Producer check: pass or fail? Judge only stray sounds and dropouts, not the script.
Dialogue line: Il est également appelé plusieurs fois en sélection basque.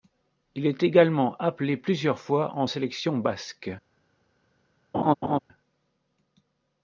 fail